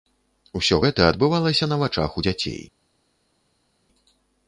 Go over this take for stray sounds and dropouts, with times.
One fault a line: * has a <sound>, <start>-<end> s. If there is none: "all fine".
all fine